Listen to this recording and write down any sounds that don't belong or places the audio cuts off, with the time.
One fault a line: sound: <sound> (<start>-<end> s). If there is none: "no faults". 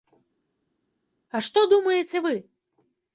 no faults